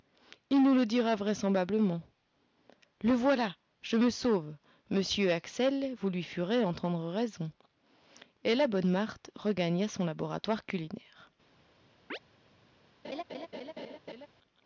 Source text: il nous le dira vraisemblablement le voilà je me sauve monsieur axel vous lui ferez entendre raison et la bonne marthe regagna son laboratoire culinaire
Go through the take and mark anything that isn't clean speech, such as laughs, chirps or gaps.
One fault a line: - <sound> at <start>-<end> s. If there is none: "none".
- chirp at 12.1-12.2 s
- laugh at 13.0-14.3 s